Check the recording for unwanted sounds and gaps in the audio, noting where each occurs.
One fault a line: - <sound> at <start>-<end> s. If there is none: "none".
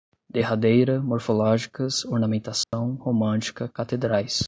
- dropout at 2.6-2.7 s